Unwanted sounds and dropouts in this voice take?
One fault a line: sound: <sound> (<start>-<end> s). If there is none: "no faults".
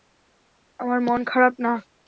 no faults